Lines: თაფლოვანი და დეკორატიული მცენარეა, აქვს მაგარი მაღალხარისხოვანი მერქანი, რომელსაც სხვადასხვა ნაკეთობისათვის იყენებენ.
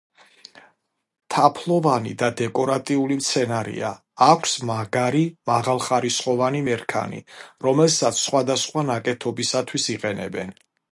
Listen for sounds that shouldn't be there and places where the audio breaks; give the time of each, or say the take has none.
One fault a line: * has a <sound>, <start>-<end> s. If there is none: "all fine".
all fine